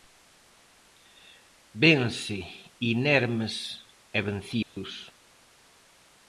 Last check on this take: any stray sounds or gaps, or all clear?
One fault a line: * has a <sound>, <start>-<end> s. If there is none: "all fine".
* has a dropout, 4.6-4.8 s